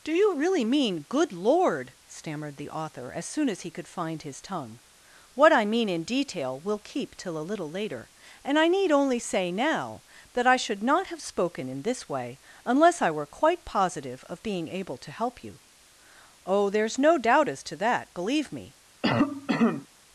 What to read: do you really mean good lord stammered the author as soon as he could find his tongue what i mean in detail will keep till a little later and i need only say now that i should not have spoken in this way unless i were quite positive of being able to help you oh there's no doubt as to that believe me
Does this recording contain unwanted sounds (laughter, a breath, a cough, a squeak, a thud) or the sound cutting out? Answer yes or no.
yes